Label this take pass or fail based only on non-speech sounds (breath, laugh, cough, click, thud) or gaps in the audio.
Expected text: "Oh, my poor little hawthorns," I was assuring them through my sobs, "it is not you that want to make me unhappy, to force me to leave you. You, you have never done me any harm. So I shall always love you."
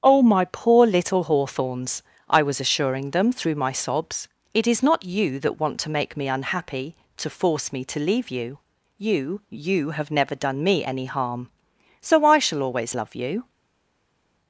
pass